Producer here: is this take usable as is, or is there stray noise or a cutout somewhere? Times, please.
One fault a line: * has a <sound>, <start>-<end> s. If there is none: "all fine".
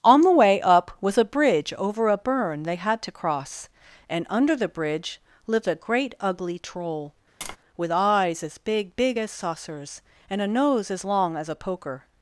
* has a tap, 7.4-7.6 s